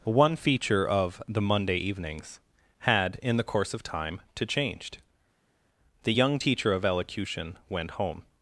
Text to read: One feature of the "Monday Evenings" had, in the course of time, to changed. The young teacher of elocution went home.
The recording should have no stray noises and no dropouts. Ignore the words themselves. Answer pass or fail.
pass